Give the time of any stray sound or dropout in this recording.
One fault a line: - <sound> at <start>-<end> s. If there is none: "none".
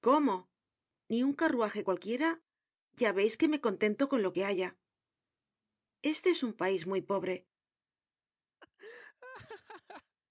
- laugh at 8.6-10.2 s